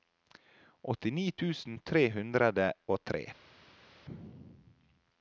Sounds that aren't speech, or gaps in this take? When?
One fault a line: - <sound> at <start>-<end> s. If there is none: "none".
none